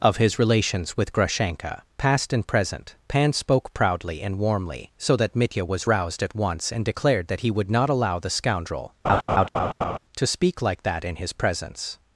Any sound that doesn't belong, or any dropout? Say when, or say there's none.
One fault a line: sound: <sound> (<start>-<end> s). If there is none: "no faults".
sound: laugh (9.0-10.0 s)